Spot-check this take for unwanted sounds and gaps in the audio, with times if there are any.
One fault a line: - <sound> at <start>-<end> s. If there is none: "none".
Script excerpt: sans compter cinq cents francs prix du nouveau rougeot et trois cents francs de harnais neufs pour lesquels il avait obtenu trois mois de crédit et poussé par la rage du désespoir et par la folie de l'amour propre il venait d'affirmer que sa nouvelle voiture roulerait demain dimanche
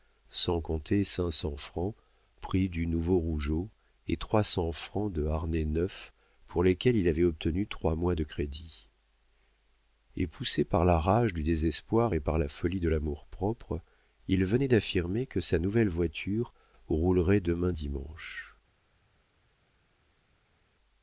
none